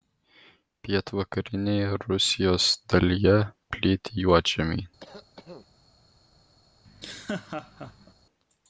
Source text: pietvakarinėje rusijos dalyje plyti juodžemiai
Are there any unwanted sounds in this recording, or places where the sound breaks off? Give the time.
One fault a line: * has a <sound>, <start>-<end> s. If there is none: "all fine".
* has a cough, 5.0-5.7 s
* has a laugh, 6.8-8.1 s